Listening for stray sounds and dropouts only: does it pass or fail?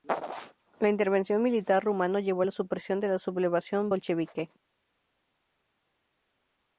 pass